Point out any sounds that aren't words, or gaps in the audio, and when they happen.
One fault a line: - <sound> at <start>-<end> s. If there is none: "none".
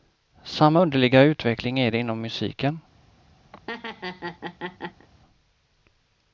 - laugh at 3.5-5.1 s